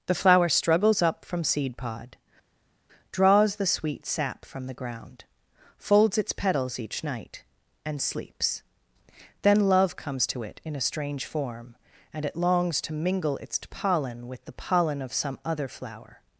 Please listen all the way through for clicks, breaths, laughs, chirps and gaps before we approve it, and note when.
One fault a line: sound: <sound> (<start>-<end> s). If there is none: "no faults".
no faults